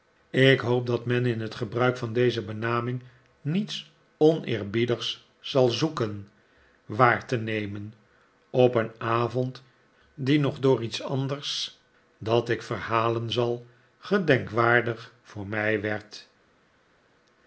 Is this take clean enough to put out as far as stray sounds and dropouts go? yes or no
yes